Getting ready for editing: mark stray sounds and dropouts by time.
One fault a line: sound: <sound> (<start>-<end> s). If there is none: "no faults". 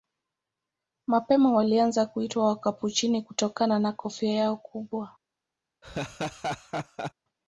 sound: laugh (5.8-7.1 s)